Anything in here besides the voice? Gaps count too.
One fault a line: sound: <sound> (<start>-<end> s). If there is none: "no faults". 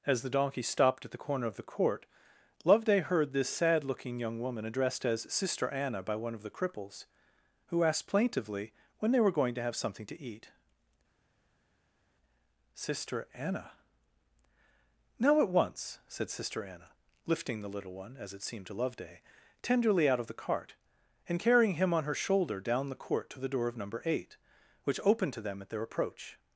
no faults